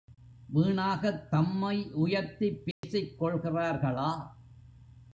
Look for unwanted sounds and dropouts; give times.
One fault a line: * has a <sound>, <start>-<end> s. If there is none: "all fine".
* has a dropout, 2.7-2.8 s